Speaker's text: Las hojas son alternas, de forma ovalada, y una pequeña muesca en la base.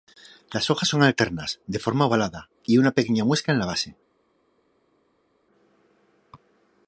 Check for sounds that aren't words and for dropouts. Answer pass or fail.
pass